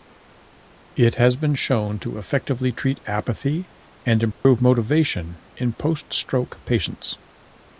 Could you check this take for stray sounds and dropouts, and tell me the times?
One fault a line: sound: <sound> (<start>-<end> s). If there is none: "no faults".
sound: dropout (4.3-4.4 s)